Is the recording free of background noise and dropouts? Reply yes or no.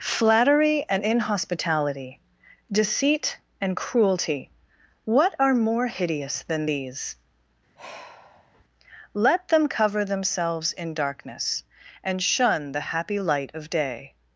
no